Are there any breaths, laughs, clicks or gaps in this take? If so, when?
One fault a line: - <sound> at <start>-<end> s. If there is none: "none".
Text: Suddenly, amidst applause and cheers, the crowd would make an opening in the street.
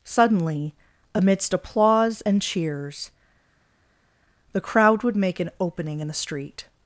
none